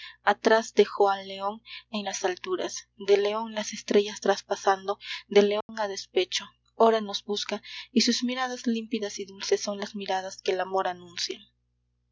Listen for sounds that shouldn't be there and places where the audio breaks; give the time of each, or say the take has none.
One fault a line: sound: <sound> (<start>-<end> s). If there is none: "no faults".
sound: dropout (5.6-5.7 s)